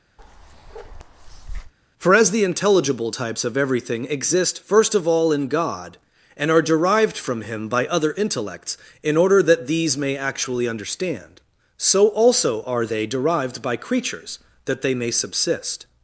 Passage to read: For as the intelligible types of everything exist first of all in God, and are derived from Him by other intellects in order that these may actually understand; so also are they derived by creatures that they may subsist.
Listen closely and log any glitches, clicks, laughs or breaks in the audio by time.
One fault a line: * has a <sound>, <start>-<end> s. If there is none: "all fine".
* has a bark, 0.2-1.7 s